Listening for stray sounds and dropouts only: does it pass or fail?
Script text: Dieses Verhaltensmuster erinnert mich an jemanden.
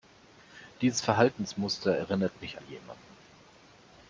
pass